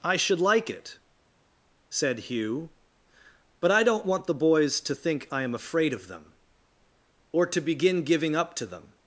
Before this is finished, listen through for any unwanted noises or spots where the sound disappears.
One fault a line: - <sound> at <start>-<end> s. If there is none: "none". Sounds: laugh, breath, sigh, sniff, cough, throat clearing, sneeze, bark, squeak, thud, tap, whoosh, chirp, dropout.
none